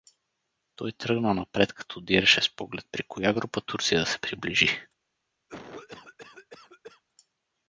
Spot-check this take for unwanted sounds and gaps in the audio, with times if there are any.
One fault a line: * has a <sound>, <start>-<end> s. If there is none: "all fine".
* has a cough, 5.5-7.0 s